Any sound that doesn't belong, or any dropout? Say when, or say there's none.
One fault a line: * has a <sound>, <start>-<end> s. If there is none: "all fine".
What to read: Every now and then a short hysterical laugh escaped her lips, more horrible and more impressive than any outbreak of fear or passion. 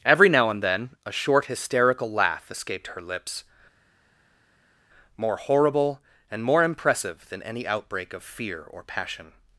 all fine